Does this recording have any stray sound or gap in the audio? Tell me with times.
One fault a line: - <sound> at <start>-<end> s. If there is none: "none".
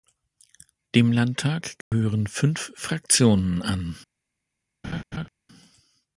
- dropout at 1.8-1.9 s
- laugh at 4.8-5.3 s